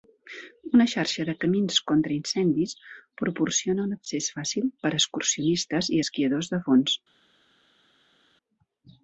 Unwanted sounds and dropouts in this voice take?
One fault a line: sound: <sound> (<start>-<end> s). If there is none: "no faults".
no faults